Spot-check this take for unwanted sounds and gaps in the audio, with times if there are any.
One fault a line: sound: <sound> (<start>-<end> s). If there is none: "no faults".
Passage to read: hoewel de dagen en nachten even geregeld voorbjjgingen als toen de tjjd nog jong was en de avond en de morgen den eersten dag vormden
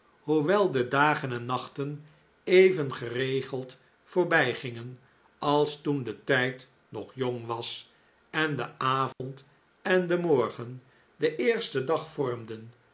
sound: dropout (9.1-9.2 s)